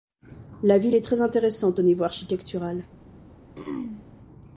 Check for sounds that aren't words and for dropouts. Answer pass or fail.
fail